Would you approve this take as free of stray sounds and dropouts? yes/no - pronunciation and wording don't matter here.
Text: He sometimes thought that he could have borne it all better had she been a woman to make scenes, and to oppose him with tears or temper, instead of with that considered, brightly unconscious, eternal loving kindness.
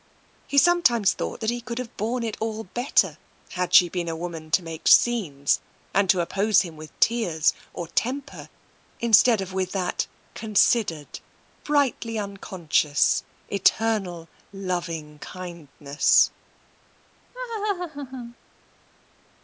no